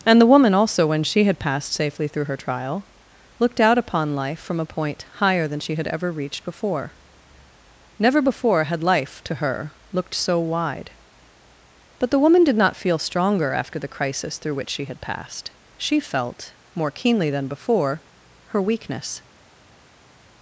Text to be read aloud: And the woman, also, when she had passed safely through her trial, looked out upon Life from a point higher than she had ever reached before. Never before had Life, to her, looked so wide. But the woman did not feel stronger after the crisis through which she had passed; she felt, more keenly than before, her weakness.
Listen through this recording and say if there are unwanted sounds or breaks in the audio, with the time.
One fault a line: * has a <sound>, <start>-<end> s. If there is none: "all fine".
all fine